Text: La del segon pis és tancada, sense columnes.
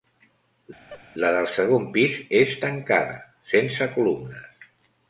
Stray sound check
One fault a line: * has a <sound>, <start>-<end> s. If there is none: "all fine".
* has a laugh, 0.9-1.0 s